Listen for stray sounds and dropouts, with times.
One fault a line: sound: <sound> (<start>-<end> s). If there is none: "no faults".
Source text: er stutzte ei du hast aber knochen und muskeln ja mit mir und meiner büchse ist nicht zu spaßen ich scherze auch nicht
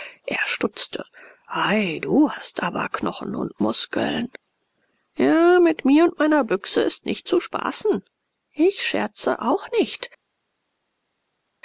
no faults